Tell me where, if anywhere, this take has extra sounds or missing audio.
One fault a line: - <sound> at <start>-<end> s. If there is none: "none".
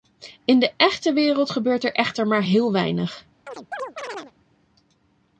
- chirp at 3.5-4.3 s